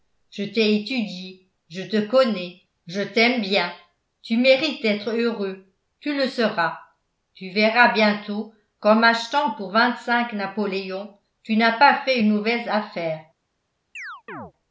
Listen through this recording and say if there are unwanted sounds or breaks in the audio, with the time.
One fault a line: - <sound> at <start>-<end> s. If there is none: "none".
- chirp at 14.0-14.5 s